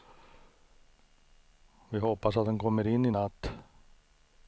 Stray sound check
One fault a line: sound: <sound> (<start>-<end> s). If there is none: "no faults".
no faults